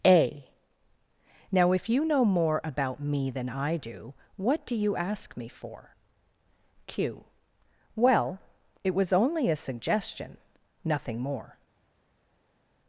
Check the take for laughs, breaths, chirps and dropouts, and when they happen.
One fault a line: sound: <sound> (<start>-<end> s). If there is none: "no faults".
no faults